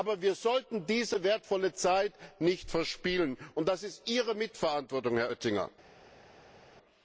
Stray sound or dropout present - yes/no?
no